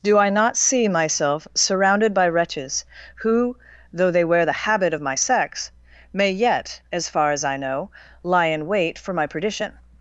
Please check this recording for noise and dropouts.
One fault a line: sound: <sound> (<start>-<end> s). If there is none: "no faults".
no faults